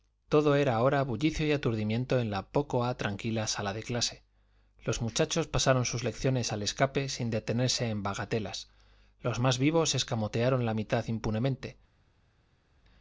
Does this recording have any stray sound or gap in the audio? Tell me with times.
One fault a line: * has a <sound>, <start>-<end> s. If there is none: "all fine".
all fine